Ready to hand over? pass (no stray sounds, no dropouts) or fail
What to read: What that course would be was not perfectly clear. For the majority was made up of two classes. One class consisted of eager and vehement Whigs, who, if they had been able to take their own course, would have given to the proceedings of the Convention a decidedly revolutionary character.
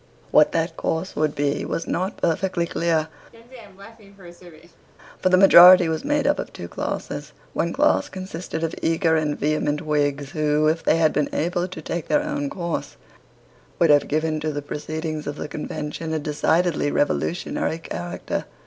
fail